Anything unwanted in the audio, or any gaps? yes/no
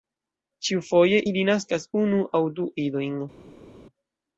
no